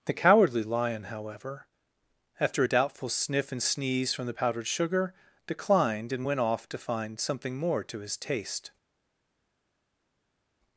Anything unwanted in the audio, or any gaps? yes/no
no